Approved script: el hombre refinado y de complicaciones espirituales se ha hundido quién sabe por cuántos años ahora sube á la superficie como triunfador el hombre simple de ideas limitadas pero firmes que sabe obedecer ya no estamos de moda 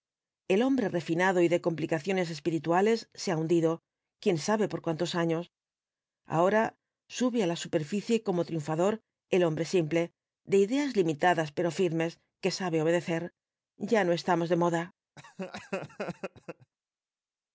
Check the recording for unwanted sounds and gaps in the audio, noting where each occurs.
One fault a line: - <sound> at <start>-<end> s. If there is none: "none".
- laugh at 15.2-16.7 s